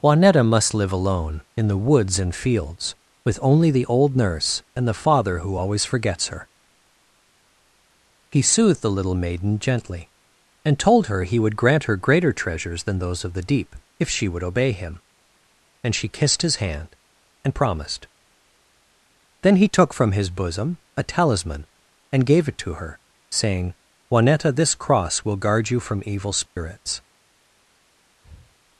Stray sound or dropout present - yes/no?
yes